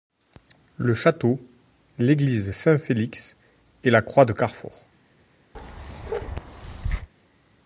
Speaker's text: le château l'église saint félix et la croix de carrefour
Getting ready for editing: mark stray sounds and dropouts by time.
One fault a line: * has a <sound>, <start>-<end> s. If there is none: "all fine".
* has a bark, 5.5-7.1 s